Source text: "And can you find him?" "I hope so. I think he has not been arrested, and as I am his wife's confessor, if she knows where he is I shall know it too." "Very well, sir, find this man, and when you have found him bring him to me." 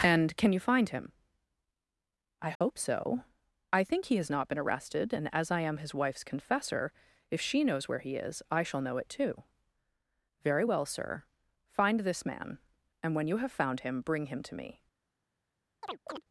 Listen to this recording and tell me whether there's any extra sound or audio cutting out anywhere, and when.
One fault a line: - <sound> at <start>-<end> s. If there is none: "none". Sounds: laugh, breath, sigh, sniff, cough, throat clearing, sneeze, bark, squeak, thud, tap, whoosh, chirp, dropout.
- dropout at 2.5-2.6 s
- chirp at 15.8-16.2 s